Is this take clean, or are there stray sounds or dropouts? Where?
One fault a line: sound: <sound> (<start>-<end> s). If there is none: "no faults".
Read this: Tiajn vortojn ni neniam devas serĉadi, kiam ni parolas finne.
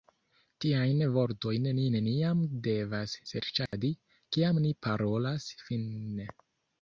sound: dropout (3.7-3.7 s)